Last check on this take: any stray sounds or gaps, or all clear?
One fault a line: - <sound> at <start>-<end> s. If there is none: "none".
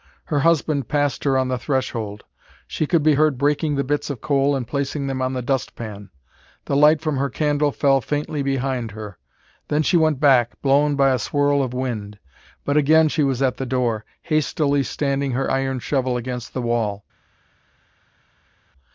none